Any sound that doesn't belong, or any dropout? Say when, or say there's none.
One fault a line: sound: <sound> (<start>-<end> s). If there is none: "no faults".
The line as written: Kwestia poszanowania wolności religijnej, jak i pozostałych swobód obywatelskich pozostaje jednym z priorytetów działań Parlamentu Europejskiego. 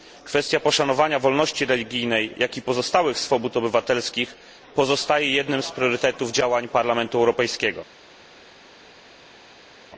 no faults